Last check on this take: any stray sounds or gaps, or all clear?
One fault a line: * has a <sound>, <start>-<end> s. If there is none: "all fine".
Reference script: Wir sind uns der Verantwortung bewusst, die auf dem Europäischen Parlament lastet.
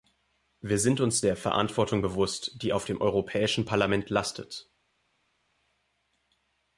all fine